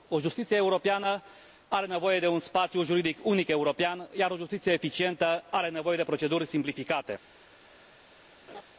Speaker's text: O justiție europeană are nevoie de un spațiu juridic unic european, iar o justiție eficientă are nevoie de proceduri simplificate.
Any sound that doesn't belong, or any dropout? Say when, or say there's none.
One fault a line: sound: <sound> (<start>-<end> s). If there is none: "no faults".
sound: laugh (8.5-8.6 s)